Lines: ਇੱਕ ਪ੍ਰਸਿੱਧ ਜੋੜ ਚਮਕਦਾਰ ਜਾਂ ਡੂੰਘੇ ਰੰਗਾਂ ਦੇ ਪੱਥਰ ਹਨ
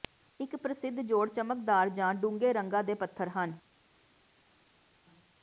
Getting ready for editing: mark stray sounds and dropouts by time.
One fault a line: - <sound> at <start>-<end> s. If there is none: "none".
none